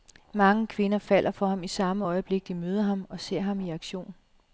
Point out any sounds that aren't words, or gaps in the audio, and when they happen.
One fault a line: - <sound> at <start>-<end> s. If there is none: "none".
none